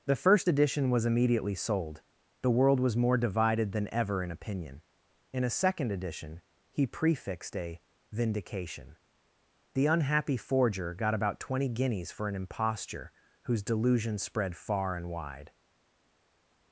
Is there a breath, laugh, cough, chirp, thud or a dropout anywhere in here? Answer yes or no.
no